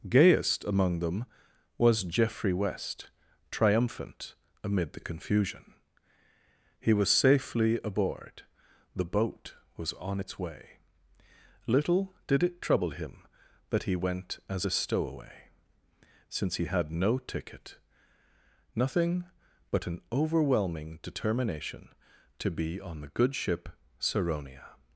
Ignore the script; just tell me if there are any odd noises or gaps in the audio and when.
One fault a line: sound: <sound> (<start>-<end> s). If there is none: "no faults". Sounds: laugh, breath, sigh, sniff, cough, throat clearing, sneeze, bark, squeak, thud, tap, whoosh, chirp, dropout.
no faults